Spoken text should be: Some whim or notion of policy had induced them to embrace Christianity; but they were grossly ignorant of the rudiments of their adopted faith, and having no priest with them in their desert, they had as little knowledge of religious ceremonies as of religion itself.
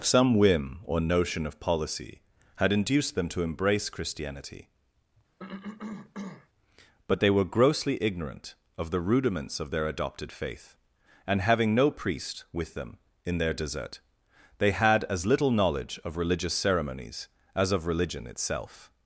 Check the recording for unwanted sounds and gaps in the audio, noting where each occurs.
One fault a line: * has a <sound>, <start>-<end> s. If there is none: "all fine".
* has a cough, 5.4-6.5 s